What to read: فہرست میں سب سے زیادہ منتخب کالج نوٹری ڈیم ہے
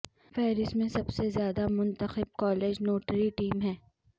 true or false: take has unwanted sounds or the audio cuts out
false